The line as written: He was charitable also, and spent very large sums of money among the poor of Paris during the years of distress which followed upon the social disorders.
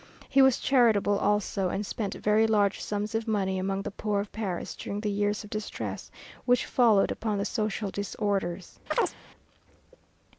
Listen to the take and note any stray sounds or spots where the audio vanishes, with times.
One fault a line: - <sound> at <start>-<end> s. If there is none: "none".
- chirp at 8.9-9.2 s